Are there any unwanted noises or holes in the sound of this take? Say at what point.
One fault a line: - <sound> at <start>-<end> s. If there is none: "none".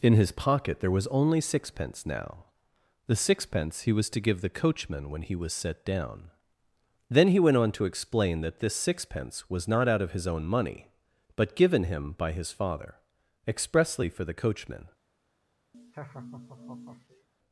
- laugh at 15.7-17.3 s